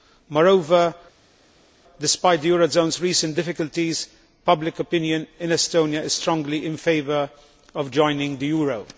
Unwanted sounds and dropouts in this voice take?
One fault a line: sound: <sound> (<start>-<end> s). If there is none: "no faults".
no faults